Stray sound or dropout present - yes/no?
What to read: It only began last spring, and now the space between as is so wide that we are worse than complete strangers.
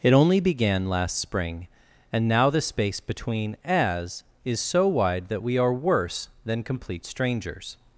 no